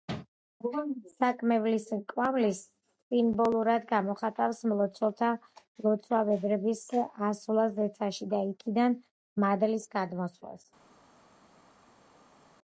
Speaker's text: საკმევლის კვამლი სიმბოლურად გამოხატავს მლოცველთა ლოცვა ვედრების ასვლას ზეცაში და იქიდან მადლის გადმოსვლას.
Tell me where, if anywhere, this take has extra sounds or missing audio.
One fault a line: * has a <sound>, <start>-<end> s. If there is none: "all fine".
all fine